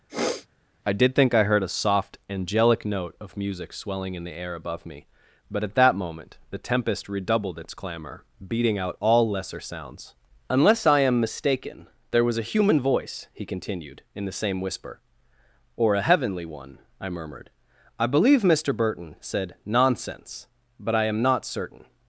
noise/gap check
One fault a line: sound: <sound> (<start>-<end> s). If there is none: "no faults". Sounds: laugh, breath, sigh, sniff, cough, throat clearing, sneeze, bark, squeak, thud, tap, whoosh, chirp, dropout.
sound: sniff (0.1-0.5 s)